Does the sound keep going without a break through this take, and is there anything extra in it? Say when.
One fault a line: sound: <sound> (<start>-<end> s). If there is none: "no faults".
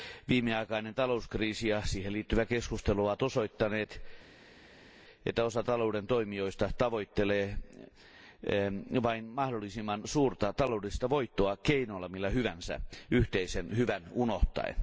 no faults